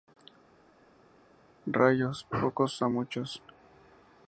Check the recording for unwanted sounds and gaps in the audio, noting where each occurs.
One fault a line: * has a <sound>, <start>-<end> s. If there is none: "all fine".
all fine